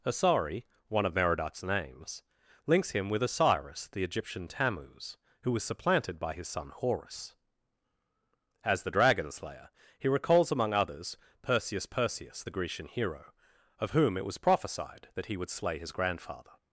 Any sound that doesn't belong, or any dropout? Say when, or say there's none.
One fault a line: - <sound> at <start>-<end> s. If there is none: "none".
none